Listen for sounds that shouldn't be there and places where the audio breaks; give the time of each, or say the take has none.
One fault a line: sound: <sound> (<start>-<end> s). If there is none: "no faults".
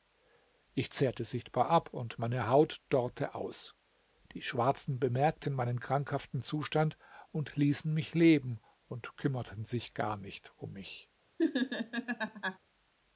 sound: laugh (11.4-12.6 s)